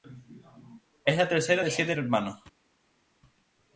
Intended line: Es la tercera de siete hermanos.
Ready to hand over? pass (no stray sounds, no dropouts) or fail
pass